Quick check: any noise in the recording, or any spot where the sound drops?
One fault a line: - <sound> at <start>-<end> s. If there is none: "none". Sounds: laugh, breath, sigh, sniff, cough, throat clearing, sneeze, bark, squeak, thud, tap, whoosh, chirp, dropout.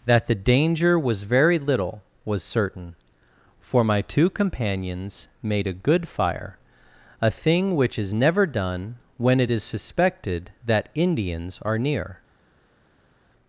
none